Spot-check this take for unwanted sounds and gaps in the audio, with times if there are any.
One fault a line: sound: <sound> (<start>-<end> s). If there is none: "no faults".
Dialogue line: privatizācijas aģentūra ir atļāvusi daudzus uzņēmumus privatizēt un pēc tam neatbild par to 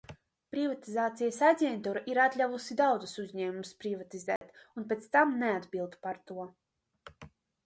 sound: dropout (4.4-4.4 s)